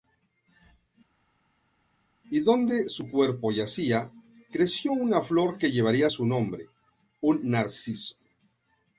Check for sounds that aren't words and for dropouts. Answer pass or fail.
pass